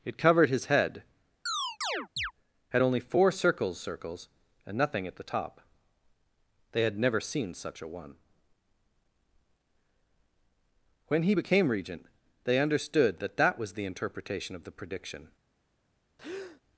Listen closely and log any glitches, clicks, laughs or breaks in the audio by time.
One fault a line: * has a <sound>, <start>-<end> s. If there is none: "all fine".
* has a chirp, 1.5-2.3 s
* has a breath, 16.2-16.6 s